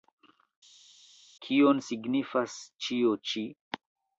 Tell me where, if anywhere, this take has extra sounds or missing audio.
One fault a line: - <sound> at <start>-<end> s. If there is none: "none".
none